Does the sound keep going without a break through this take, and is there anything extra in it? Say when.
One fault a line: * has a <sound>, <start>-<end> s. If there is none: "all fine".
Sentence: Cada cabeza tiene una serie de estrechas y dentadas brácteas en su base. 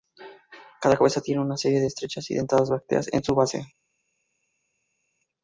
all fine